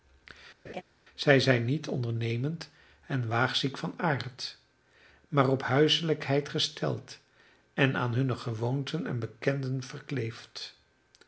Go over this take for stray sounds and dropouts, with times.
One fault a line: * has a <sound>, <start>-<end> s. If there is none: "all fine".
* has a laugh, 0.6-0.8 s